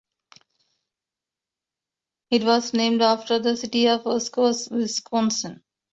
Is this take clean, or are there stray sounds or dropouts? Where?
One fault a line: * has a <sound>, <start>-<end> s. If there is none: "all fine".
all fine